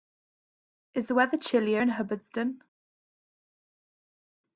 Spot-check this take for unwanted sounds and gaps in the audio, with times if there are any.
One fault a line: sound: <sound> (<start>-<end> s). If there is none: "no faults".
no faults